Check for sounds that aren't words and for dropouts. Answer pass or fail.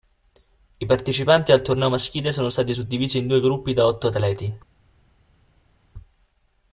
pass